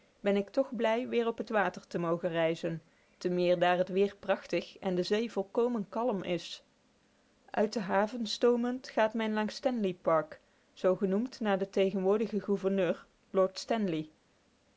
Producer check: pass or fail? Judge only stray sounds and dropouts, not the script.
pass